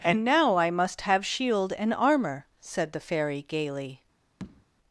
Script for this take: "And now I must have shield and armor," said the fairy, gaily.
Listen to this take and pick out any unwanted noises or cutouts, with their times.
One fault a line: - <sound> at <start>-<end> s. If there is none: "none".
- tap at 4.4-4.7 s